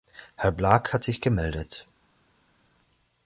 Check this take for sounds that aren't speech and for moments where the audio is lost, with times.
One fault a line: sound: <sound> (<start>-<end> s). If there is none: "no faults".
no faults